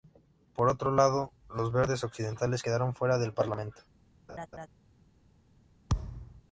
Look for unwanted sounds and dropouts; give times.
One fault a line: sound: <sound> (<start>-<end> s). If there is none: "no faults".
sound: laugh (4.3-4.7 s)
sound: thud (5.9-6.4 s)